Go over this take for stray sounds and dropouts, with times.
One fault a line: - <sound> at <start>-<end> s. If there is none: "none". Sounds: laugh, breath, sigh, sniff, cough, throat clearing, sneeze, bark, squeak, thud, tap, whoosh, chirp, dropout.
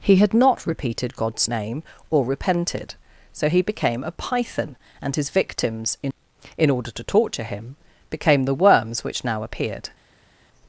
none